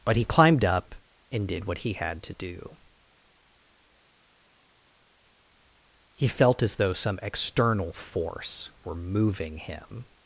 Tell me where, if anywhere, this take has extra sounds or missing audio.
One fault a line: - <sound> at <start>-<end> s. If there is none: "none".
none